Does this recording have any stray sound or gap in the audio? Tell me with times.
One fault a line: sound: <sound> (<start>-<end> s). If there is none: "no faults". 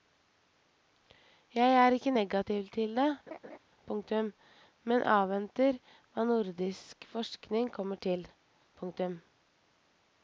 sound: laugh (3.3-3.6 s)